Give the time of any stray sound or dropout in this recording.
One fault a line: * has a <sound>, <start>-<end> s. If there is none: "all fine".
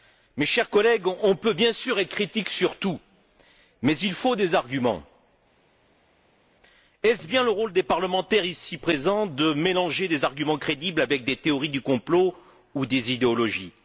all fine